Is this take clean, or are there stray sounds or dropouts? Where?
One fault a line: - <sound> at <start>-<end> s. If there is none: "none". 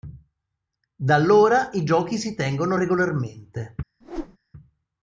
- whoosh at 4.0-4.4 s